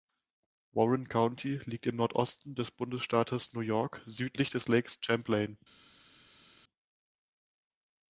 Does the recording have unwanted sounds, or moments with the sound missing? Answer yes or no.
no